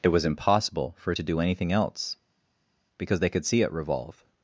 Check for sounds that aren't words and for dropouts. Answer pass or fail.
pass